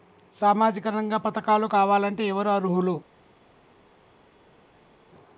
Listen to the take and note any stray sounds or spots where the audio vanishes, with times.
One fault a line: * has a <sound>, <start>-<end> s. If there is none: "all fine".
all fine